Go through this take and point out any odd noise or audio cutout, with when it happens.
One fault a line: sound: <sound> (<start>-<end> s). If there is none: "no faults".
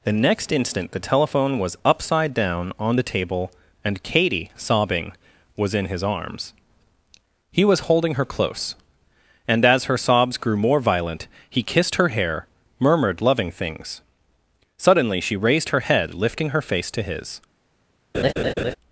sound: laugh (18.1-18.8 s)